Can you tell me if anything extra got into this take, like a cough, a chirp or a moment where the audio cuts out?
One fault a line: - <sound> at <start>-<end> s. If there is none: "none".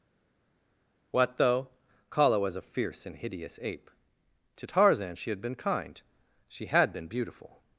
none